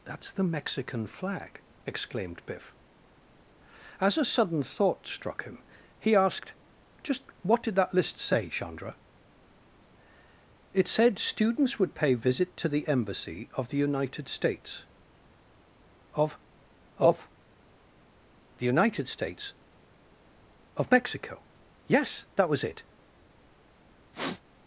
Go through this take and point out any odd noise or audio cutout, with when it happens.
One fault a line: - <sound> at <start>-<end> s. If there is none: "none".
- sniff at 24.1-24.4 s